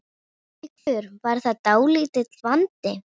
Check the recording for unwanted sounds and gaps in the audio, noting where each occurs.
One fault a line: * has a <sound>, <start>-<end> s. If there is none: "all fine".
* has a dropout, 0.8-0.9 s